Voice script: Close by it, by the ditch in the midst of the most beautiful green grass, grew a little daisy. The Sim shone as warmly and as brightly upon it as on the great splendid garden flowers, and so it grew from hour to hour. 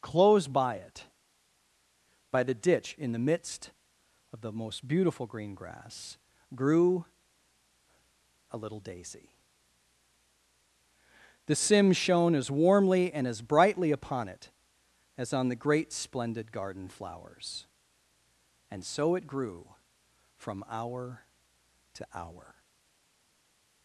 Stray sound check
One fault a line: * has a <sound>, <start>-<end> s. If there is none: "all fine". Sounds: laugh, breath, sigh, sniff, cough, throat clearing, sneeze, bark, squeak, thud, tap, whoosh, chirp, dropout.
all fine